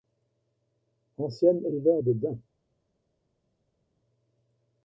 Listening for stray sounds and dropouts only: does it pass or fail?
pass